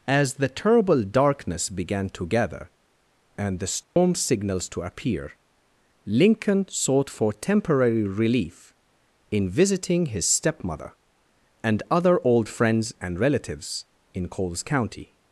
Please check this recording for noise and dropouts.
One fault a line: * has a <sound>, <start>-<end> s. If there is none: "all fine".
* has a dropout, 3.8-4.0 s